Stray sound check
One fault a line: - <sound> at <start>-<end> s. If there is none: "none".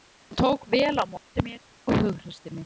- dropout at 1.2-1.3 s